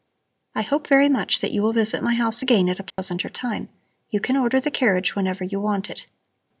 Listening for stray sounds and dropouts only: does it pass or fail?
fail